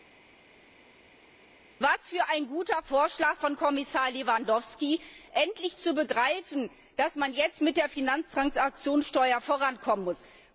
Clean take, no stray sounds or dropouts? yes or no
yes